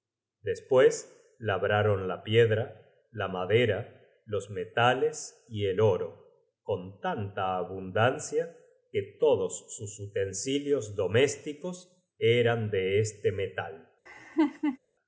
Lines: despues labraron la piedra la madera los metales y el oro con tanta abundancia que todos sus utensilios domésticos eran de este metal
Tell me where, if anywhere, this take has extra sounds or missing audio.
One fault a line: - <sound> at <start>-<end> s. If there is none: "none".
- laugh at 14.1-14.8 s